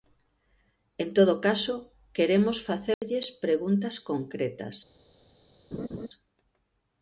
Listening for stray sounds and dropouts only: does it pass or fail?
fail